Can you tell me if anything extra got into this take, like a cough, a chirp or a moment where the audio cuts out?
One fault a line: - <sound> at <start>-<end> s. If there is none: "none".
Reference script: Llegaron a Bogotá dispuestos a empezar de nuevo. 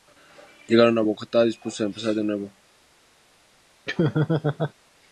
- laugh at 3.9-4.7 s